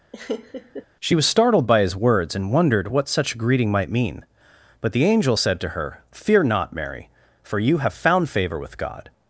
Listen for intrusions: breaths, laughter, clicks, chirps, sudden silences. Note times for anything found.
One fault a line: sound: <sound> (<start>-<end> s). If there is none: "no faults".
sound: laugh (0.1-0.9 s)